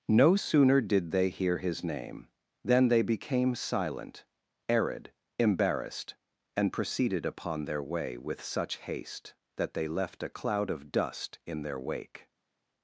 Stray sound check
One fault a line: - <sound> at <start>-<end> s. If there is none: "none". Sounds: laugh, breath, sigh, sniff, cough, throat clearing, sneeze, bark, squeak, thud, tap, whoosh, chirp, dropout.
none